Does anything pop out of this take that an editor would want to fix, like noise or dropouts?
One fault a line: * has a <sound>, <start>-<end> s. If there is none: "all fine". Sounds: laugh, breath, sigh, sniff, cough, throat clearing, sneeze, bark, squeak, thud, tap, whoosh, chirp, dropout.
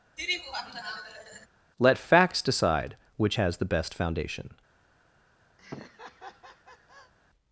* has a laugh, 0.2-1.5 s
* has a laugh, 5.6-7.1 s